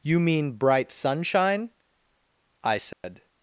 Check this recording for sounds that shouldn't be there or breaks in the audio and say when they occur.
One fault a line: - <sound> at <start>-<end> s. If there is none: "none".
- dropout at 2.9-3.0 s